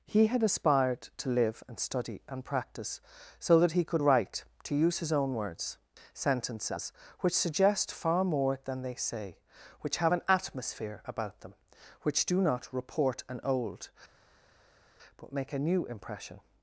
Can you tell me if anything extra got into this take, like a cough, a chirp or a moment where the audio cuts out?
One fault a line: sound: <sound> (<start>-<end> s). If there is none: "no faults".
no faults